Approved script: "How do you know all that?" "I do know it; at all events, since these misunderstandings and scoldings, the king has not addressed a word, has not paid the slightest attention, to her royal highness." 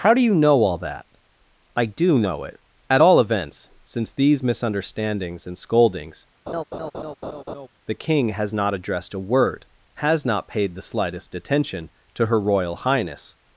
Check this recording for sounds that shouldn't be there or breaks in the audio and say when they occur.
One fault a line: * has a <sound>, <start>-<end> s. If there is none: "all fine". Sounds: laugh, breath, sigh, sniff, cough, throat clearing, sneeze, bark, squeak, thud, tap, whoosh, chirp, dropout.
* has a laugh, 6.5-7.7 s